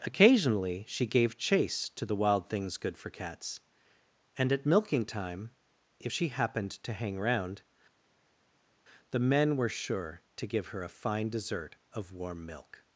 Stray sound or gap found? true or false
false